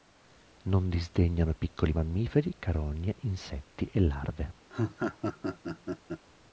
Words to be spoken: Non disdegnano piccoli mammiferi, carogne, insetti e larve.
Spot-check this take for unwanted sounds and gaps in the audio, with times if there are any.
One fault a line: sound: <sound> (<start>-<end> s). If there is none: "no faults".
sound: laugh (4.7-6.2 s)